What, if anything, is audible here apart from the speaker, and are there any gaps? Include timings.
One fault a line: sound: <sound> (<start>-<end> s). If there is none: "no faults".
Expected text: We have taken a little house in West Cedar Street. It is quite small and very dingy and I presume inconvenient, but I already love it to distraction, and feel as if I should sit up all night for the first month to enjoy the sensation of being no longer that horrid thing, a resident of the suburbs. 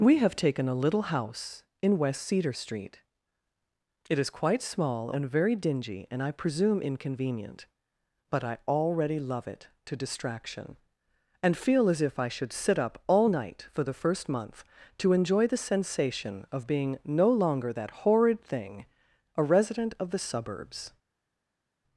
no faults